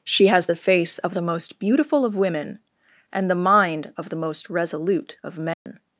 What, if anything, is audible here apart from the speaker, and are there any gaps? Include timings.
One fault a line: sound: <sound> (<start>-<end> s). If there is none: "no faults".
sound: dropout (5.5-5.7 s)